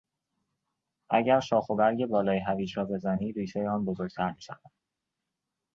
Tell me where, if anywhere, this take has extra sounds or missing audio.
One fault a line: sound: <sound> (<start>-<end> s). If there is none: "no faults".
no faults